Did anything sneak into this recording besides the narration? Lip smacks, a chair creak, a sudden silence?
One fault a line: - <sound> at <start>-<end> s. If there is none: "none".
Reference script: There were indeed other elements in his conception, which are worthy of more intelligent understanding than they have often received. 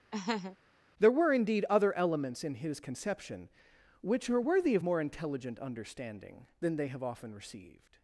- laugh at 0.1-0.6 s